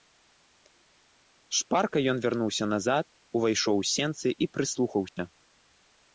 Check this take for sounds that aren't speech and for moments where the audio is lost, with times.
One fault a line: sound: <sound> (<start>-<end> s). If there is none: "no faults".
sound: dropout (5.1-5.2 s)